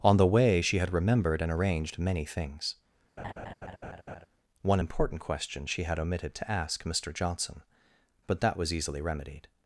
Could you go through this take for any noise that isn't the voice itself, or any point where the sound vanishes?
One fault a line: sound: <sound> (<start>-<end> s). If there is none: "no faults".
sound: laugh (3.2-4.3 s)